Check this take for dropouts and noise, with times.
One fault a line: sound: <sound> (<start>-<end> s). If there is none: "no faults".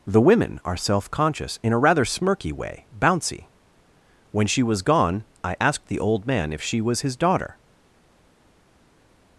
no faults